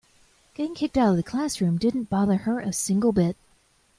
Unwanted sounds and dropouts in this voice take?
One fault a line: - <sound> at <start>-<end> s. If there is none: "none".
none